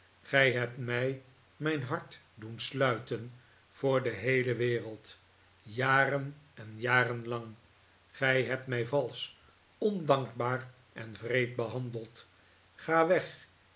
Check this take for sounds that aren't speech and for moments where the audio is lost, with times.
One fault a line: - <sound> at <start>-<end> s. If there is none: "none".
none